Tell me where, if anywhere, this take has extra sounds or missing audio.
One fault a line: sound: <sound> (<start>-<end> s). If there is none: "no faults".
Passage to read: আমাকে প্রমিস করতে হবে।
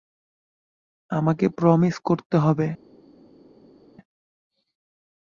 no faults